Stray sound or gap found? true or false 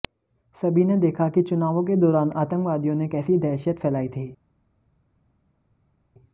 false